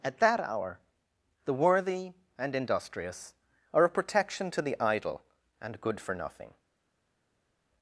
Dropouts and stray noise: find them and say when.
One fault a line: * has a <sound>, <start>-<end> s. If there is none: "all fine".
all fine